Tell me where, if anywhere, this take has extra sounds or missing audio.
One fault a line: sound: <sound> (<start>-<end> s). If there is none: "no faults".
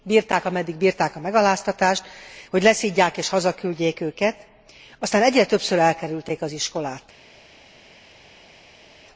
no faults